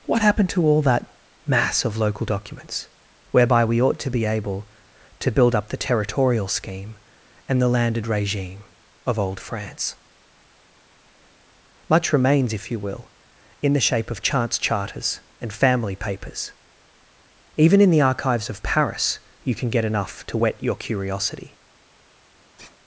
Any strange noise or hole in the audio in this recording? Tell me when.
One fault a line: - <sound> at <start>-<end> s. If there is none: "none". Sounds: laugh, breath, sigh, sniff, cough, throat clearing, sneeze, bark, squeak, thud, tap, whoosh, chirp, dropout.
- sigh at 22.6-22.8 s